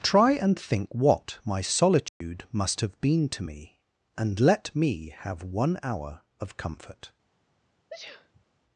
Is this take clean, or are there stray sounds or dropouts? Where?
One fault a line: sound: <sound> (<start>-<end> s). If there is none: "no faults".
sound: dropout (2.1-2.2 s)
sound: sneeze (7.9-8.4 s)